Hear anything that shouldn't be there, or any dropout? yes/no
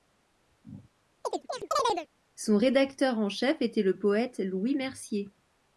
yes